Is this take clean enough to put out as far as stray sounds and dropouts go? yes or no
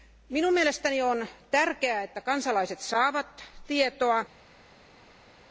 yes